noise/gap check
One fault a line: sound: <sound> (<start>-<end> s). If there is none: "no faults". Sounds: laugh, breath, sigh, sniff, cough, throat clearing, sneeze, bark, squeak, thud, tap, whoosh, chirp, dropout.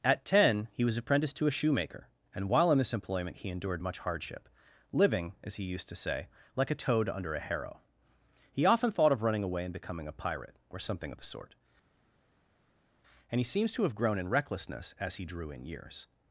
no faults